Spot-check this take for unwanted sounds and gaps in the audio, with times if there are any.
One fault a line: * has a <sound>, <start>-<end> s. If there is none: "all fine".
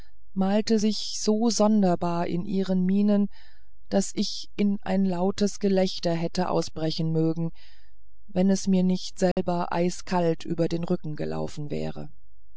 * has a dropout, 9.3-9.4 s